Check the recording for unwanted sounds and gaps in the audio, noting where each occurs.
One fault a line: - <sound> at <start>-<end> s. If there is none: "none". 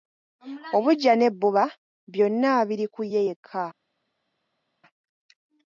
none